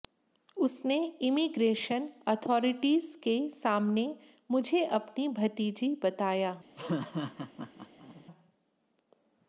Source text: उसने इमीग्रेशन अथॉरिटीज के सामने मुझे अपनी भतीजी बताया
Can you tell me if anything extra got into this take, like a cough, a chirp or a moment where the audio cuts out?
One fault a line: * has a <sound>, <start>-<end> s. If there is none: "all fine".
* has a laugh, 6.8-8.3 s